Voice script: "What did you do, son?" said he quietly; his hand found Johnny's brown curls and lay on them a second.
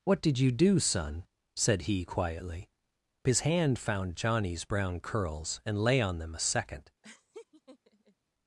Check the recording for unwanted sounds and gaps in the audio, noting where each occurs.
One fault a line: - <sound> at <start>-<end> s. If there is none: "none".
- laugh at 7.0-8.1 s